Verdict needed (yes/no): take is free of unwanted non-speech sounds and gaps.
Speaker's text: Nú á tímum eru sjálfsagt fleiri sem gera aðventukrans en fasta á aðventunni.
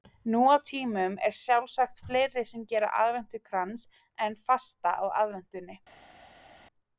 yes